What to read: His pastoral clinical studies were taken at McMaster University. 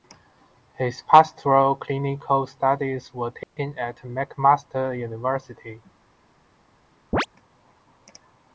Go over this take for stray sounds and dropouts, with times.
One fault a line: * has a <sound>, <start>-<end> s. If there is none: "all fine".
* has a dropout, 3.4-3.6 s
* has a chirp, 7.1-7.3 s